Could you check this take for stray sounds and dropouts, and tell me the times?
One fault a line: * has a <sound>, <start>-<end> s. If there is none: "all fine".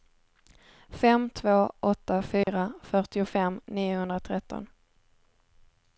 * has a dropout, 2.4-2.5 s